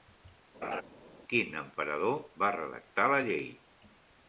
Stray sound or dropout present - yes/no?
yes